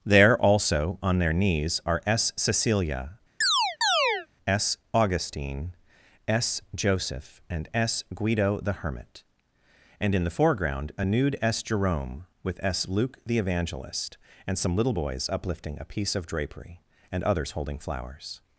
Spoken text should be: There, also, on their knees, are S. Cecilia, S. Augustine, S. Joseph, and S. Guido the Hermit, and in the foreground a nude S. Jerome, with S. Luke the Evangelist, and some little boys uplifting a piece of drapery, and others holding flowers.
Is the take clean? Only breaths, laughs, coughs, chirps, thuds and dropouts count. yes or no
no